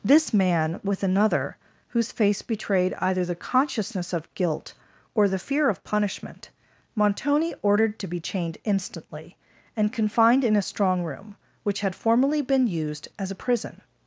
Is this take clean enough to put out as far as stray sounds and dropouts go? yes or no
yes